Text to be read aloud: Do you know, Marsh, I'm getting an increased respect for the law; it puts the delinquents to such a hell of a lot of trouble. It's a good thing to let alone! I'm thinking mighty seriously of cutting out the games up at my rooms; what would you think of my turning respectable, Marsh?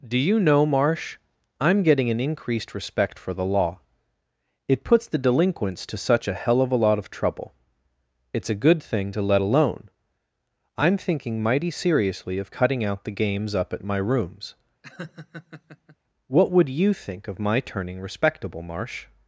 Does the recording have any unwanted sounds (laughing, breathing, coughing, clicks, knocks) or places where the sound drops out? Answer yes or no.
yes